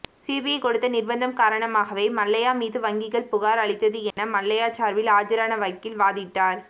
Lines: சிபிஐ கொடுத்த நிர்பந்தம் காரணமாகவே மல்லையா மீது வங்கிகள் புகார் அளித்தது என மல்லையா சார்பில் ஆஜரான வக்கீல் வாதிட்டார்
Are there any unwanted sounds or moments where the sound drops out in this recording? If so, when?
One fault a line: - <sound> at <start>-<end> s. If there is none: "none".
- dropout at 4.1-4.2 s